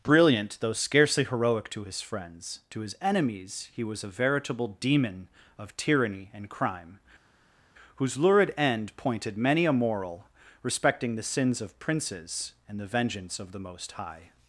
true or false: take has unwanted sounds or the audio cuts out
false